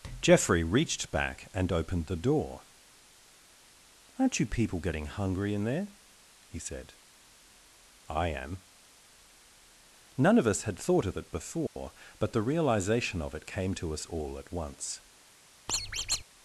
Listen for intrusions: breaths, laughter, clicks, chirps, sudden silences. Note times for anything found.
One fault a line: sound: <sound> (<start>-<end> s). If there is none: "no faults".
sound: dropout (11.7-11.8 s)
sound: squeak (15.7-16.2 s)